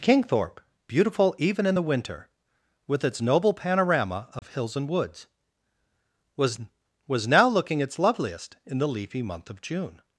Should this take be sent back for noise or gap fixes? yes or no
yes